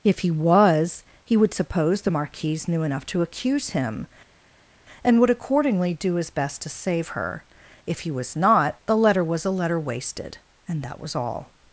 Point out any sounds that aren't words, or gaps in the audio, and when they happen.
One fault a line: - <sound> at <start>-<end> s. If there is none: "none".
none